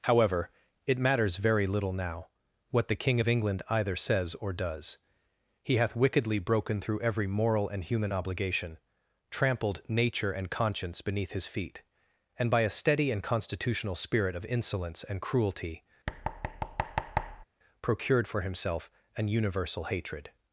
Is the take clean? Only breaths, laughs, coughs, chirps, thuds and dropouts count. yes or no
no